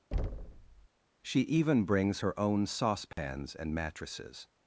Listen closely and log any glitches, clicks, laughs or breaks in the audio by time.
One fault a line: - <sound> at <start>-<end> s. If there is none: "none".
- thud at 0.1-0.9 s
- dropout at 3.1-3.2 s